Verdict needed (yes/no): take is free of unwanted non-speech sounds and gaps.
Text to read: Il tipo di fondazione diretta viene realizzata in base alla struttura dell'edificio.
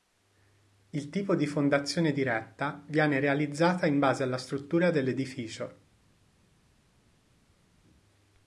yes